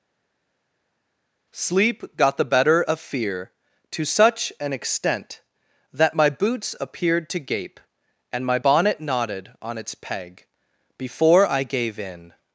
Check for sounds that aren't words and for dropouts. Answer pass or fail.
pass